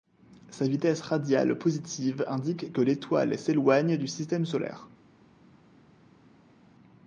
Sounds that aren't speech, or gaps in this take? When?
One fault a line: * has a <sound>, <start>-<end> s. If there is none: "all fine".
all fine